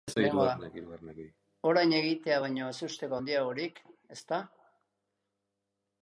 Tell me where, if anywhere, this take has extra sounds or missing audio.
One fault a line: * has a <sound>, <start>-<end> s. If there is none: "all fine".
all fine